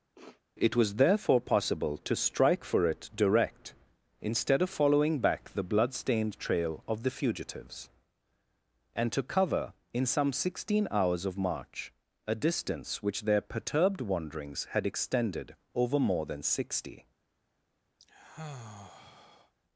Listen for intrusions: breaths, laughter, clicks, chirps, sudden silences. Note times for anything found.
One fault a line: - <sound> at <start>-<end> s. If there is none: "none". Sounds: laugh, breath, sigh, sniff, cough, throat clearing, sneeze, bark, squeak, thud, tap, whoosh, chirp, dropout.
- sniff at 0.1-0.4 s
- sigh at 18.0-19.5 s